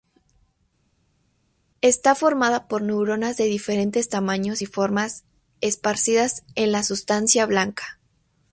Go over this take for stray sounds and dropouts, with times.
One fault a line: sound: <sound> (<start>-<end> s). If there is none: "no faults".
no faults